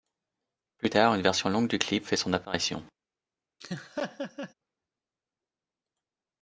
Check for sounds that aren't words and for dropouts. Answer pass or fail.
fail